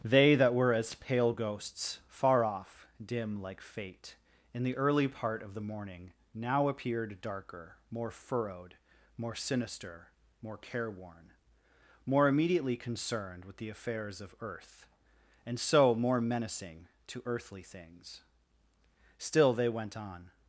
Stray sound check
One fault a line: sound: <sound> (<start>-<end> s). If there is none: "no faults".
no faults